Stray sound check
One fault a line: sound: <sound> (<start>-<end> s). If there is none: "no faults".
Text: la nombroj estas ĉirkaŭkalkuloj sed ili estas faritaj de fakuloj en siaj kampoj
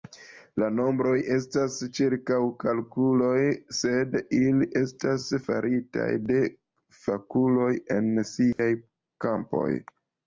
sound: dropout (8.5-8.6 s)